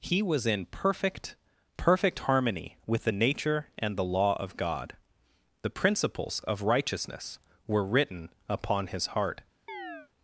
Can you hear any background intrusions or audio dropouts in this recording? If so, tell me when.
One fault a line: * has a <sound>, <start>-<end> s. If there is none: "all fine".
* has a chirp, 9.7-10.1 s